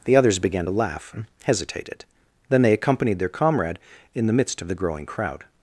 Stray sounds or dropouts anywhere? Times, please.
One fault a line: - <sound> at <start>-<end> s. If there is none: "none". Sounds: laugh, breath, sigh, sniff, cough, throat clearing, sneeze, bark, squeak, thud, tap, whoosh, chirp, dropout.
none